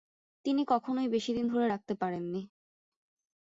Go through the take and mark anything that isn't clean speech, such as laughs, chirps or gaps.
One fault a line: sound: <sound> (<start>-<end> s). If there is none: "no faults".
no faults